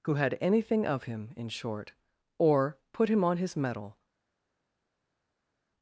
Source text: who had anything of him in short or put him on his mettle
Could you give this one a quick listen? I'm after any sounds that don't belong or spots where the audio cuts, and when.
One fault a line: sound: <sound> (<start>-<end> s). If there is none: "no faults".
no faults